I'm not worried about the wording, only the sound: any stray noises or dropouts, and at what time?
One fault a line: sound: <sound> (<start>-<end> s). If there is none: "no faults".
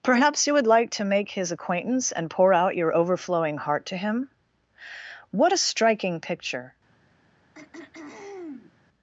sound: throat clearing (7.5-8.8 s)